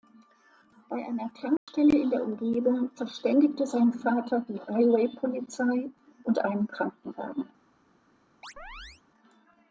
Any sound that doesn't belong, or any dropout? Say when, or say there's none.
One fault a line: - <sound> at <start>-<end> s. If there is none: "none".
- dropout at 1.6-1.7 s
- chirp at 8.4-9.0 s